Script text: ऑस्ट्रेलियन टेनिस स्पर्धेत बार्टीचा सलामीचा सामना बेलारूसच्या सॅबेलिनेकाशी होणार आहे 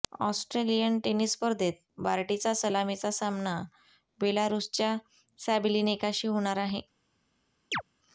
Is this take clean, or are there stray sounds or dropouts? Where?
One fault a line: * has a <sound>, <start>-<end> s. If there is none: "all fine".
* has a chirp, 7.7-7.8 s